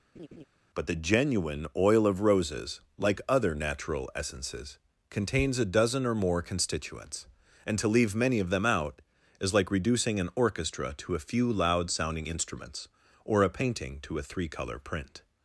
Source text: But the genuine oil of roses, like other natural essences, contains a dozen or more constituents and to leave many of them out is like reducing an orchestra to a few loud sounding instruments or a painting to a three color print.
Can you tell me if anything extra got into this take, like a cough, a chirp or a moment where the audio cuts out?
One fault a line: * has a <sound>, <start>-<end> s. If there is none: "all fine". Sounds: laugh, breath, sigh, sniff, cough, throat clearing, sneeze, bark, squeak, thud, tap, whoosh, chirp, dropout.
* has a laugh, 0.1-0.4 s